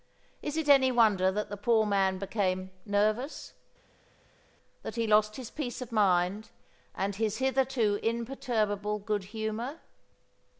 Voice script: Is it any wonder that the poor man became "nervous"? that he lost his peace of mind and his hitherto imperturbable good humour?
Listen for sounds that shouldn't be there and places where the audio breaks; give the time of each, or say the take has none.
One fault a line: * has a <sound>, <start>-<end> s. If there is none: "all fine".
all fine